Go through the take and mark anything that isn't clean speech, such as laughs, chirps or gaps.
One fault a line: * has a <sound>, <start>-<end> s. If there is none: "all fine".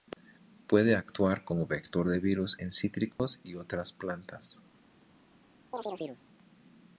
* has a dropout, 3.1-3.2 s
* has a chirp, 5.7-6.2 s